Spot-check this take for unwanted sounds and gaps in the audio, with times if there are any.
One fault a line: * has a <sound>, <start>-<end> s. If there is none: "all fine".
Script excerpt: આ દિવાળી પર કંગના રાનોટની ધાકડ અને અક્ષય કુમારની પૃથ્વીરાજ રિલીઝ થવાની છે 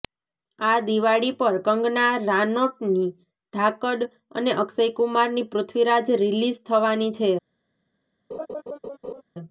* has a laugh, 8.3-9.2 s